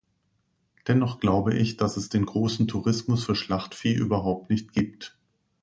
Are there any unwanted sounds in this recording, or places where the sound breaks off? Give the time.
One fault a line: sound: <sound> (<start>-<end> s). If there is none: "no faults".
no faults